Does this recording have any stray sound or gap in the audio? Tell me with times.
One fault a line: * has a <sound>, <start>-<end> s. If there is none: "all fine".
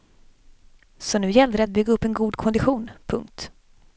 all fine